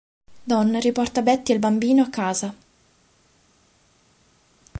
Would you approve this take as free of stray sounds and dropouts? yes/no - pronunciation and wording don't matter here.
yes